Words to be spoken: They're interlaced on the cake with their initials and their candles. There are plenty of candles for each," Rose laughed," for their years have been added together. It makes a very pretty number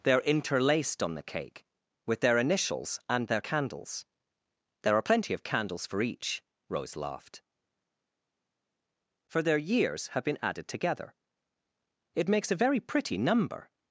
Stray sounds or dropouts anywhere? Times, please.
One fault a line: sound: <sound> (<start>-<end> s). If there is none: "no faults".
no faults